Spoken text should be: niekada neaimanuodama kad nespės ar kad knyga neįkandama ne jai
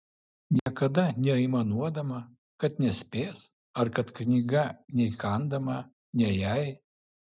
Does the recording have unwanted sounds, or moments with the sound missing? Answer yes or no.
yes